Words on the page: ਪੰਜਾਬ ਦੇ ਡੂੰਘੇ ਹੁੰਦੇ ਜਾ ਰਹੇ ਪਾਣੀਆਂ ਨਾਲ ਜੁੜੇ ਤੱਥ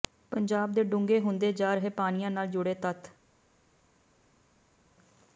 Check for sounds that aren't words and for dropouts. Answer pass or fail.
pass